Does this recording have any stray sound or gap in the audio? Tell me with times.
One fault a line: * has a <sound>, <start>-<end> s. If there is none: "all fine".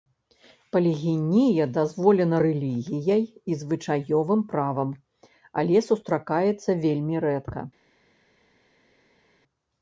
all fine